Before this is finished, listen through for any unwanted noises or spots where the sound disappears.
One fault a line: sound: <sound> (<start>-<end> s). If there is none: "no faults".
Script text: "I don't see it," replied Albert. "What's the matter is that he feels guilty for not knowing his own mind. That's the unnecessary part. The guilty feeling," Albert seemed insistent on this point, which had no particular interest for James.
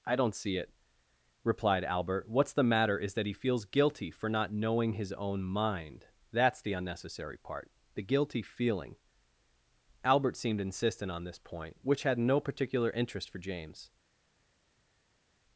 no faults